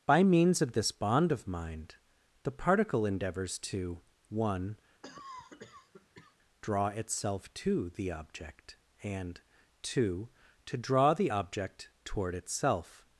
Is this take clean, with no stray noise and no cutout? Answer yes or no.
no